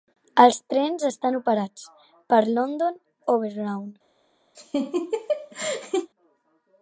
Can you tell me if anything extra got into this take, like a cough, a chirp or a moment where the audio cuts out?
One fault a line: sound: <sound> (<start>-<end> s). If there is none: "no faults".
sound: laugh (4.5-6.1 s)